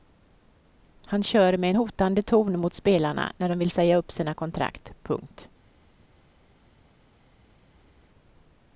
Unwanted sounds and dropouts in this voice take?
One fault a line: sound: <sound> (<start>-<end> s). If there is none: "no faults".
no faults